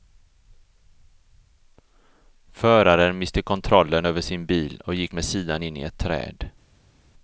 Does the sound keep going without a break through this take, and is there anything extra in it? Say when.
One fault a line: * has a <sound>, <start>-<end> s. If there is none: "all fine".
all fine